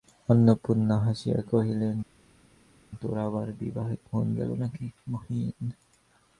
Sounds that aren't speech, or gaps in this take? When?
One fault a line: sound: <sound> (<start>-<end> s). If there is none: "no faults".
no faults